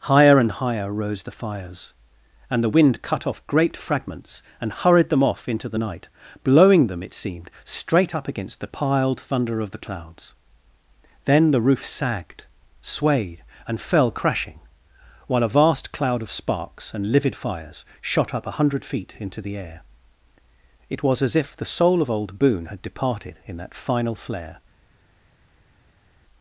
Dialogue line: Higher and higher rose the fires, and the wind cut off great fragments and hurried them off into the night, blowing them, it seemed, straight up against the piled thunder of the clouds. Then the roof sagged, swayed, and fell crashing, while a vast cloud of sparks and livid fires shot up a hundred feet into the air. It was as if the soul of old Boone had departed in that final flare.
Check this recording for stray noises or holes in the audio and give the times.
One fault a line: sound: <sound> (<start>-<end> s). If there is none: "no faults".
no faults